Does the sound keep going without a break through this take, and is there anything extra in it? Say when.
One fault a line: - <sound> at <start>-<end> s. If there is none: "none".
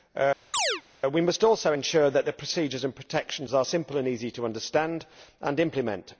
- chirp at 0.5-0.8 s